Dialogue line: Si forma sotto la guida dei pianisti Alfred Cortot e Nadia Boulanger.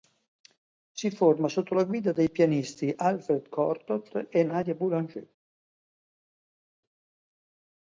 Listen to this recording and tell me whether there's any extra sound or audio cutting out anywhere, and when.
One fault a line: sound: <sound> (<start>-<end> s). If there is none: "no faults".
no faults